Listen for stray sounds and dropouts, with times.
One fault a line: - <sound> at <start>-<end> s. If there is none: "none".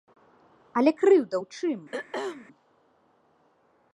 - throat clearing at 1.9-2.5 s